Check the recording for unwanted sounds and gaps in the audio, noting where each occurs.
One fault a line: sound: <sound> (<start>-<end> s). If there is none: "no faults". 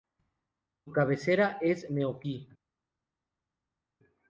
no faults